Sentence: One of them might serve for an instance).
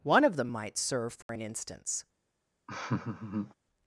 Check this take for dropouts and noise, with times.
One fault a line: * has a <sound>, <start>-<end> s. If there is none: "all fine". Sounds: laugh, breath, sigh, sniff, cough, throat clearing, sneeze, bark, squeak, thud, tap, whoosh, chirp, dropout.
* has a dropout, 1.2-1.3 s
* has a laugh, 2.7-3.5 s